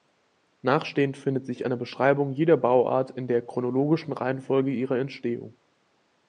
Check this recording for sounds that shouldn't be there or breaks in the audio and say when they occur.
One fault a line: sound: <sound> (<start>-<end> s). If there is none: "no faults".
no faults